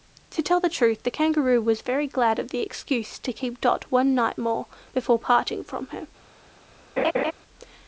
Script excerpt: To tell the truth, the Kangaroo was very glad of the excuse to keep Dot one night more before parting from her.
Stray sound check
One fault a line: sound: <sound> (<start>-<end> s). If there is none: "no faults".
sound: laugh (7.0-7.3 s)